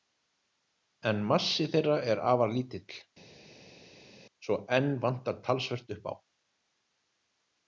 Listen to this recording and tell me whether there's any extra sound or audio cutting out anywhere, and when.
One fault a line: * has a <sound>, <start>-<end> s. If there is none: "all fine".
all fine